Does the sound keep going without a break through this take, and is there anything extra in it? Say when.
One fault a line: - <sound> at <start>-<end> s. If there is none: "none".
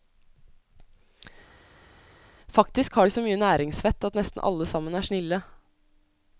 none